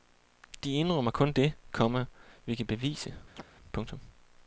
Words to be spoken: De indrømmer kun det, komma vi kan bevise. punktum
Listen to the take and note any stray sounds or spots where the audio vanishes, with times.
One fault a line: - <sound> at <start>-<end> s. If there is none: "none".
- chirp at 3.3-3.4 s